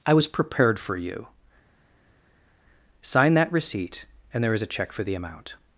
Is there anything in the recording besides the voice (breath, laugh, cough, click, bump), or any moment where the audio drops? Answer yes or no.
no